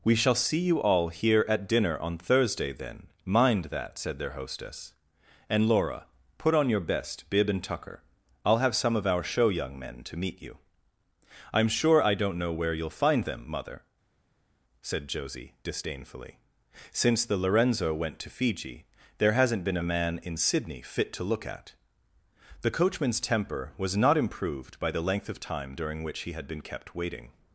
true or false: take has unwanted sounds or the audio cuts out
false